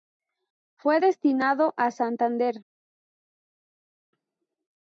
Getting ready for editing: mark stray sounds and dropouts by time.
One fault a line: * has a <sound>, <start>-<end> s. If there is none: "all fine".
all fine